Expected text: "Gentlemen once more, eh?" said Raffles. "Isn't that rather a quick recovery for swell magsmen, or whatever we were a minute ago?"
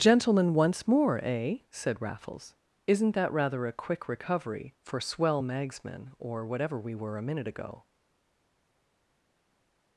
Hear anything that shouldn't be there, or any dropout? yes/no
no